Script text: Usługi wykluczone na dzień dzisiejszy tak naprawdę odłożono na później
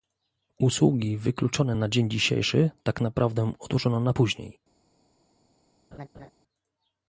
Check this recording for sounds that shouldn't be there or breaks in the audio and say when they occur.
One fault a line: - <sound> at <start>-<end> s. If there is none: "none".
- laugh at 5.9-6.3 s